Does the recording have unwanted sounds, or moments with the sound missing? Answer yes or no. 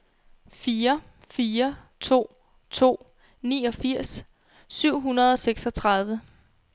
no